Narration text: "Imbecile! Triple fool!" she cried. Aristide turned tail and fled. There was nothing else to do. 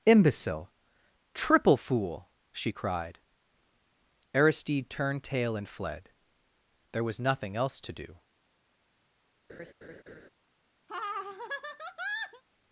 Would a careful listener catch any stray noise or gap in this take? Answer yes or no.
yes